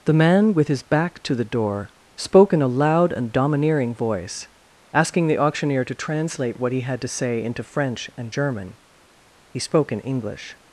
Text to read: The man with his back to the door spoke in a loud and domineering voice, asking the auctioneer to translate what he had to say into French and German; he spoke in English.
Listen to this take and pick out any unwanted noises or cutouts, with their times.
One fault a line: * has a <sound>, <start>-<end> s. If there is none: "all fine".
all fine